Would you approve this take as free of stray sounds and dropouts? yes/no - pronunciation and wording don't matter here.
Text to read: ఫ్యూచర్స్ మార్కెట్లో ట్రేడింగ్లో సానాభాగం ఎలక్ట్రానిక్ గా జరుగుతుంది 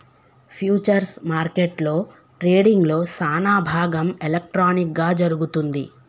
yes